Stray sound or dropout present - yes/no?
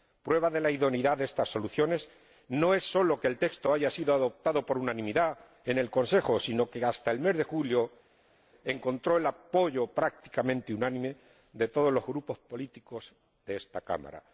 no